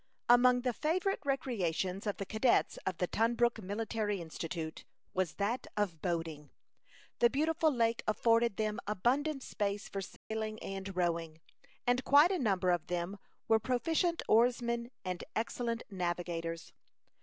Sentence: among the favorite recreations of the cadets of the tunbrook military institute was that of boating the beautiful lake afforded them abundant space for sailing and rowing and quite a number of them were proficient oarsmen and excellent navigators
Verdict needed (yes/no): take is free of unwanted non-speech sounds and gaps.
no